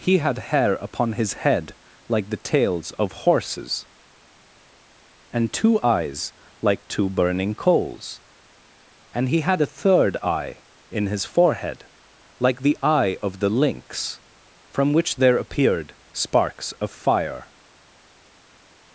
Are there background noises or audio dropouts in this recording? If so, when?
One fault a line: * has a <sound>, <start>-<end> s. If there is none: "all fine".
all fine